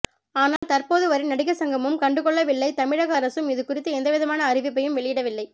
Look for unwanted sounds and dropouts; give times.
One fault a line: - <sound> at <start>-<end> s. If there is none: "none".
- dropout at 0.6-0.6 s